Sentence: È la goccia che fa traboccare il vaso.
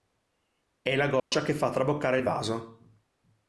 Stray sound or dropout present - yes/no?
yes